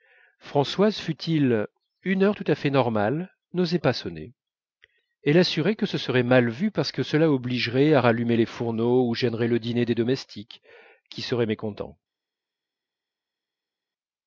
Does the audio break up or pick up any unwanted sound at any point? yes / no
no